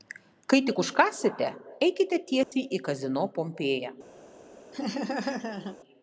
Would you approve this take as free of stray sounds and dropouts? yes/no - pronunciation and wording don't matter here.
no